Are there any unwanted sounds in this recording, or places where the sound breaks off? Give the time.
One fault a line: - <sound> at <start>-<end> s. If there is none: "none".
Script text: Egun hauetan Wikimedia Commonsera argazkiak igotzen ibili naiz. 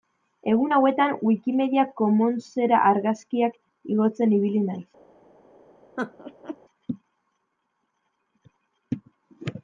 - laugh at 6.0-6.6 s